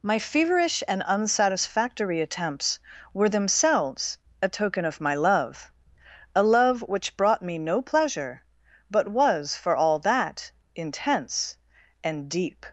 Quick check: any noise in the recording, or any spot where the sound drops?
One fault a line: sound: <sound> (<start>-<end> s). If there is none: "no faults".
no faults